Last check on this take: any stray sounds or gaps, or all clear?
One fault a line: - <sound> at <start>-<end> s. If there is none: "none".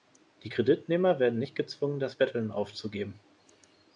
none